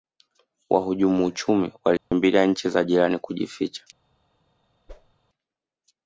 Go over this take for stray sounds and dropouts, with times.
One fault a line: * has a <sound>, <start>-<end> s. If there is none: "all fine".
* has a dropout, 2.0-2.1 s
* has a whoosh, 4.9-5.1 s